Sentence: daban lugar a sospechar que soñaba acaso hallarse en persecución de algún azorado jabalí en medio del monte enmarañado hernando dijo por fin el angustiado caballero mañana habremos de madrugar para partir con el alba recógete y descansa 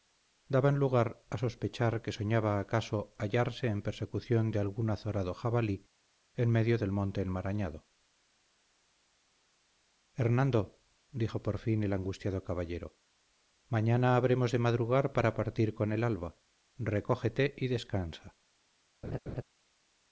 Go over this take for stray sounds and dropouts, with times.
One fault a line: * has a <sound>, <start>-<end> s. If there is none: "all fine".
* has a laugh, 19.0-19.4 s